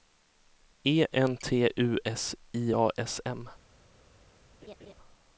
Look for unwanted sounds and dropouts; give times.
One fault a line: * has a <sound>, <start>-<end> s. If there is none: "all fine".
* has a laugh, 4.6-4.9 s